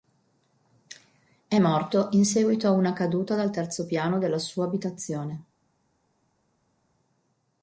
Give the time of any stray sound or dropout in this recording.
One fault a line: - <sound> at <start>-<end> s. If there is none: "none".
none